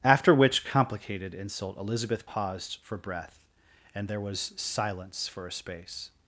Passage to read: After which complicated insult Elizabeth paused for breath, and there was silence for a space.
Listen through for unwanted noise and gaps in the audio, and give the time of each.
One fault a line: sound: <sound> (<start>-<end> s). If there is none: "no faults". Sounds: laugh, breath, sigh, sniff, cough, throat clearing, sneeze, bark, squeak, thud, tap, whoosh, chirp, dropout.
no faults